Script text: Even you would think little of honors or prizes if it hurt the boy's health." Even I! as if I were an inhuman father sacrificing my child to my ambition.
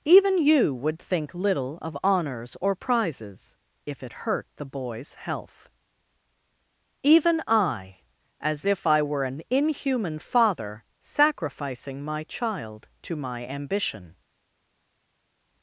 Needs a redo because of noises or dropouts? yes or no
no